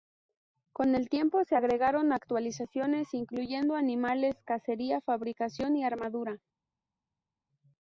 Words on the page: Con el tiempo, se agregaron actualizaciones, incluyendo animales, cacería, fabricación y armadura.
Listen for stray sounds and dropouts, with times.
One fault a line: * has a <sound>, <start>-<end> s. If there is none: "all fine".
all fine